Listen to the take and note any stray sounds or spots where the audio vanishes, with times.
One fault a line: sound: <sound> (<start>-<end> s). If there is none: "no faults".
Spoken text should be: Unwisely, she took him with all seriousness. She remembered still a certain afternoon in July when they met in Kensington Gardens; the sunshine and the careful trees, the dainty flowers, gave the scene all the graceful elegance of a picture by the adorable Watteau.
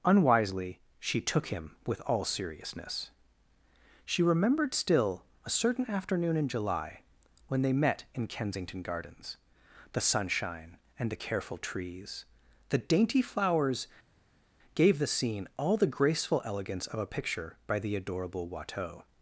no faults